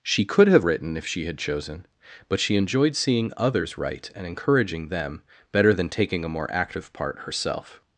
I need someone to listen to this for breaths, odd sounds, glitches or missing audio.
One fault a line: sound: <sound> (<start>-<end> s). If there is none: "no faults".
no faults